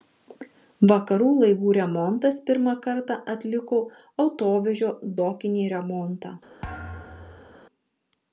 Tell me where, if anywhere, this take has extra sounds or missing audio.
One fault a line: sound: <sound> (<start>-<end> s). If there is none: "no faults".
sound: thud (6.6-7.6 s)